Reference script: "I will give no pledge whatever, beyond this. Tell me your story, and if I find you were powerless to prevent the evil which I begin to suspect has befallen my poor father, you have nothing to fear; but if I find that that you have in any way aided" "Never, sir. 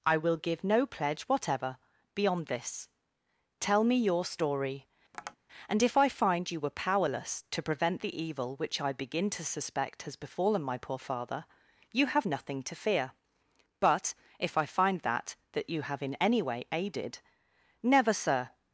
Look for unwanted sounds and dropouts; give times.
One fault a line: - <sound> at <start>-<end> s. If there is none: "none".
- tap at 5.1-5.4 s